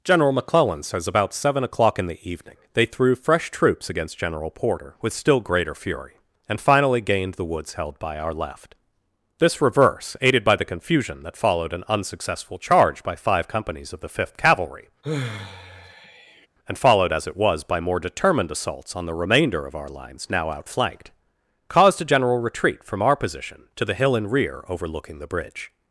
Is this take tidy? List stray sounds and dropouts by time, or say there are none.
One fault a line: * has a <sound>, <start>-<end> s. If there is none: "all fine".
* has a sigh, 15.0-16.5 s